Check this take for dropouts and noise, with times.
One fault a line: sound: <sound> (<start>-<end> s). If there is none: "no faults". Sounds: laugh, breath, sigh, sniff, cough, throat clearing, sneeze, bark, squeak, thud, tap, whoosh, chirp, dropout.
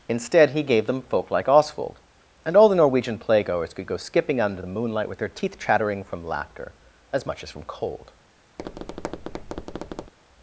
sound: tap (8.6-10.1 s)